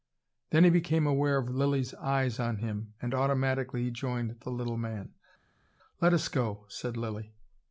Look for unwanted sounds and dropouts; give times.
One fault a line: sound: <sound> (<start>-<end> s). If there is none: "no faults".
no faults